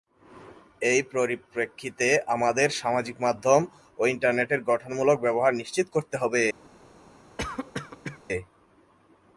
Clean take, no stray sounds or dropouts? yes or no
no